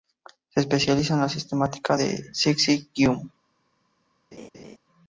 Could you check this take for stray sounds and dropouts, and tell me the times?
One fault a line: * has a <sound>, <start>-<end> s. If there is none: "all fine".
* has a laugh, 4.3-4.8 s